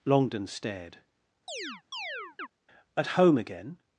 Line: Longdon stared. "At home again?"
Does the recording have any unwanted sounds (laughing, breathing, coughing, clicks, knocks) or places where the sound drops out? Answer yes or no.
yes